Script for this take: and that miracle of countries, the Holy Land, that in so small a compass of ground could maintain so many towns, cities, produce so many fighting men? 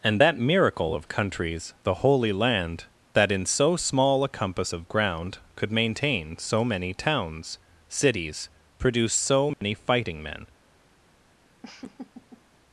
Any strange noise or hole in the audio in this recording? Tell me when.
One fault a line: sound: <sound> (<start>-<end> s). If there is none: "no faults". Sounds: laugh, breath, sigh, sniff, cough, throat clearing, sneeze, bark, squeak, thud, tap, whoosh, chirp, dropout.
sound: dropout (9.5-9.6 s)
sound: laugh (11.6-12.4 s)